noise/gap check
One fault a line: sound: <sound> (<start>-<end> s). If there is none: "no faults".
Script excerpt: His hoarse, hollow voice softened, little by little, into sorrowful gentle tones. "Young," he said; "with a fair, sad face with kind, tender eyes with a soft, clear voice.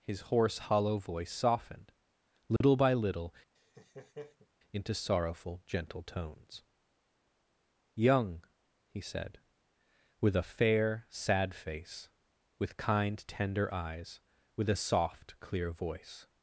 sound: dropout (2.6-2.6 s)
sound: laugh (3.6-4.5 s)